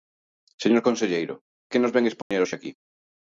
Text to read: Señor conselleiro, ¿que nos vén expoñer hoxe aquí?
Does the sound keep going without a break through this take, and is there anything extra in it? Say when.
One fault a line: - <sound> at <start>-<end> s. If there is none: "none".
- dropout at 2.2-2.3 s